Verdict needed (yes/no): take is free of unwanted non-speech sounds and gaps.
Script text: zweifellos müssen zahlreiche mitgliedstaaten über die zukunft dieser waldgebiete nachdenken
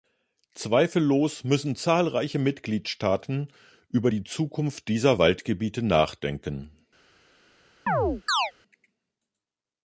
no